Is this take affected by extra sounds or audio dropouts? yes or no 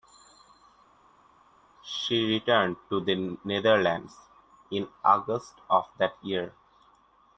no